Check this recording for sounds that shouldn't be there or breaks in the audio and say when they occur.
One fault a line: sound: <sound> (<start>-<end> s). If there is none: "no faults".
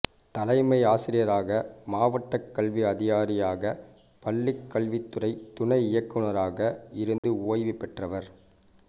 sound: dropout (7.2-7.2 s)